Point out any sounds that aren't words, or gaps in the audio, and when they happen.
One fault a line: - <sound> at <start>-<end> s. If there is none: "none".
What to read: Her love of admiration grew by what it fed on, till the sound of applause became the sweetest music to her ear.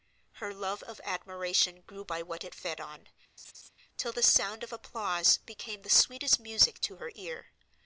- laugh at 3.4-3.7 s